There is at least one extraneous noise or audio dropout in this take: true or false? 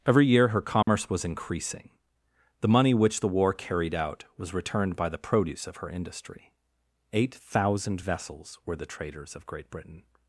true